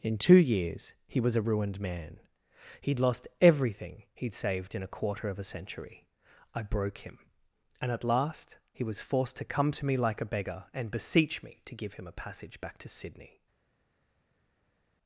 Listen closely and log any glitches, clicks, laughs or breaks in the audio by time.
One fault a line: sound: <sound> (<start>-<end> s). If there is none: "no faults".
no faults